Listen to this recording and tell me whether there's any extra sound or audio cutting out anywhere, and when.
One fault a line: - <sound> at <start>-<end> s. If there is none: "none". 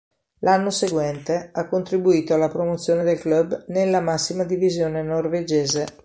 none